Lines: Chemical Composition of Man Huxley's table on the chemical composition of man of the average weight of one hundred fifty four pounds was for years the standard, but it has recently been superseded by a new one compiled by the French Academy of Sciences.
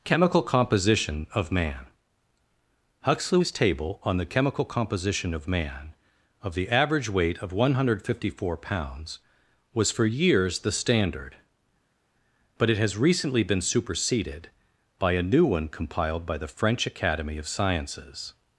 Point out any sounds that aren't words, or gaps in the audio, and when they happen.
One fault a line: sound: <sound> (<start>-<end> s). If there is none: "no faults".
no faults